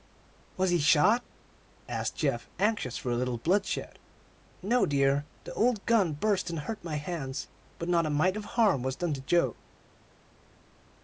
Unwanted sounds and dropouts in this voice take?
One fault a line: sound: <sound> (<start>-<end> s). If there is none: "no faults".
no faults